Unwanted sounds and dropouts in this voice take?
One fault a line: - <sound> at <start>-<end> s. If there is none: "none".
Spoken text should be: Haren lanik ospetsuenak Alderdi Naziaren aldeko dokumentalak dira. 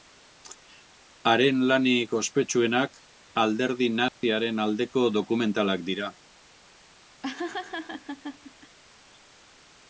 - dropout at 4.1-4.2 s
- laugh at 7.2-8.8 s